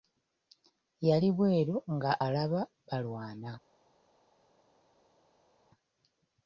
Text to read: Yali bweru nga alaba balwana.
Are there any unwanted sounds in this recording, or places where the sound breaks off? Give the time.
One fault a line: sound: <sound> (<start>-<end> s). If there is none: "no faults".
no faults